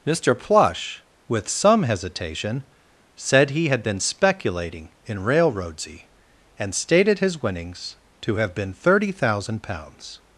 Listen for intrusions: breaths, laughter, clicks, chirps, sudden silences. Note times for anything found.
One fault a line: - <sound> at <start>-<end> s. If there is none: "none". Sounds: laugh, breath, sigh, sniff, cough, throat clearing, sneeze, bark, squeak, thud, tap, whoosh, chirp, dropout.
none